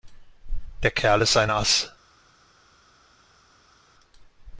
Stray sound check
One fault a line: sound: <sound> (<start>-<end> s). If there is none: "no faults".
no faults